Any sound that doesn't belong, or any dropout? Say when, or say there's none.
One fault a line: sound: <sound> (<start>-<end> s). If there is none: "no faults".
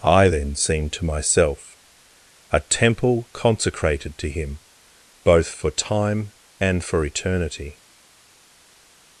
no faults